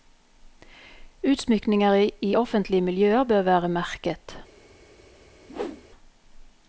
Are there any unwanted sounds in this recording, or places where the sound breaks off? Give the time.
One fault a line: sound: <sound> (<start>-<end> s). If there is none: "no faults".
sound: whoosh (5.5-5.8 s)